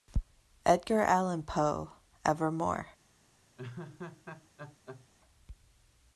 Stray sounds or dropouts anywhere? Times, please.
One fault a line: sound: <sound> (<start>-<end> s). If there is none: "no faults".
sound: laugh (3.6-5.1 s)